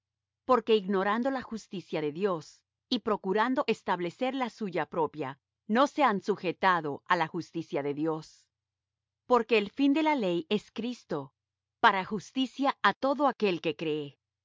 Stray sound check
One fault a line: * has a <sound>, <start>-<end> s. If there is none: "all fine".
all fine